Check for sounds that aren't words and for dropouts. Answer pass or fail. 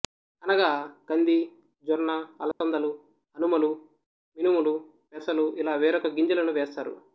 fail